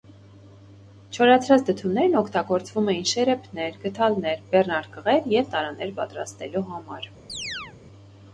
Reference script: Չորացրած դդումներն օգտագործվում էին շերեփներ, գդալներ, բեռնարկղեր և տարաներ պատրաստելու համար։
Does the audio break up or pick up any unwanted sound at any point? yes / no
yes